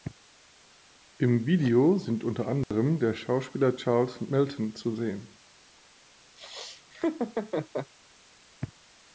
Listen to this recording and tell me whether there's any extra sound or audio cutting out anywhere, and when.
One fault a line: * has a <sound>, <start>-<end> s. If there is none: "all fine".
* has a dropout, 2.6-2.7 s
* has a laugh, 6.4-7.9 s